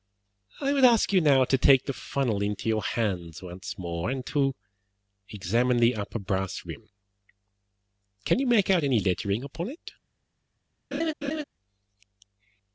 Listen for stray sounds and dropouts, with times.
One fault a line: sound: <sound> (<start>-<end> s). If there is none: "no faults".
sound: laugh (10.9-11.4 s)